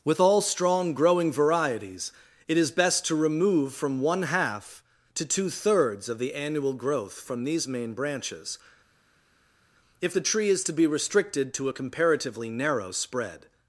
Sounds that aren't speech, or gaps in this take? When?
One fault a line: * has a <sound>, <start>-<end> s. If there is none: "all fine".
all fine